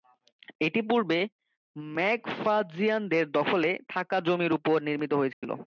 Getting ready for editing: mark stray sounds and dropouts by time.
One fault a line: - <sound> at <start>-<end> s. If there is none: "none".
- dropout at 5.3-5.4 s